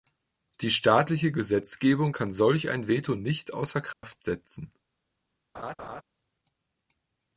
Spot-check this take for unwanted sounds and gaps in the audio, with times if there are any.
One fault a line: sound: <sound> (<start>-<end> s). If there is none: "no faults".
sound: dropout (3.9-4.0 s)
sound: laugh (5.5-6.0 s)